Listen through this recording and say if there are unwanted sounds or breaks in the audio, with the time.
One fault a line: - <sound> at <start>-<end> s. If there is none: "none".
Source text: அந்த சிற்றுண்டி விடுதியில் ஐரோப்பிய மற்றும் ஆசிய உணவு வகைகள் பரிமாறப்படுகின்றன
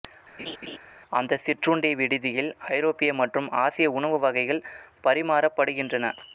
- laugh at 0.4-0.8 s